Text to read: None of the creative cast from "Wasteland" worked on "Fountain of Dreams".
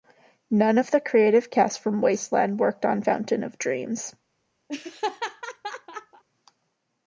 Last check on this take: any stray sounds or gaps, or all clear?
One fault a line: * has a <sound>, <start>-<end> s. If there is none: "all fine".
* has a laugh, 4.7-6.2 s